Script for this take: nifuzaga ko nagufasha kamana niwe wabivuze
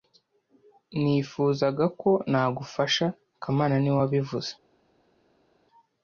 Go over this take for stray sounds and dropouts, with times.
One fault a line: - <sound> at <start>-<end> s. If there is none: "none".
none